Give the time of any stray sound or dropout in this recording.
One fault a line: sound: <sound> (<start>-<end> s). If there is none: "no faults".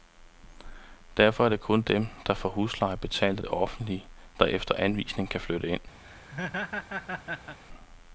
sound: laugh (6.0-7.6 s)